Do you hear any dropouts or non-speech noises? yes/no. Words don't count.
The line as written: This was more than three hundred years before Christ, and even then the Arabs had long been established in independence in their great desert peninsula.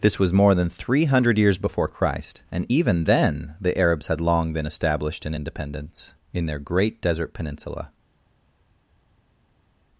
no